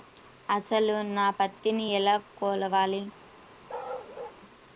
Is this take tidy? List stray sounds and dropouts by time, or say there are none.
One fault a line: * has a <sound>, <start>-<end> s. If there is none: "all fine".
* has a bark, 3.7-4.4 s